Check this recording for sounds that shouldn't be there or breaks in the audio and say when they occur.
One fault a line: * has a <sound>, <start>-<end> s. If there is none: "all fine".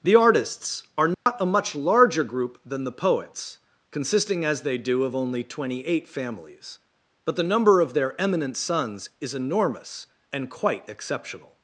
* has a dropout, 1.1-1.3 s